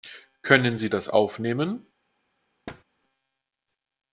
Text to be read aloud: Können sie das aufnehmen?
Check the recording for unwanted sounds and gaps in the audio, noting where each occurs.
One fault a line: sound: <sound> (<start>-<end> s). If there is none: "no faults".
sound: thud (2.7-2.8 s)